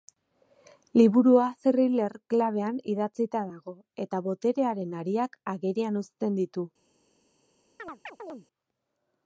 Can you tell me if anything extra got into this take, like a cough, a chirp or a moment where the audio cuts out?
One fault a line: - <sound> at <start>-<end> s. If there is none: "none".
- chirp at 7.8-8.5 s